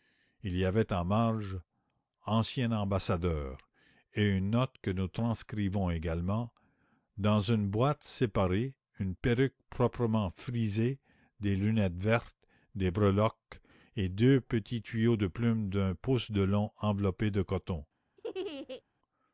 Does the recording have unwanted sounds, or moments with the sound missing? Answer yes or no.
yes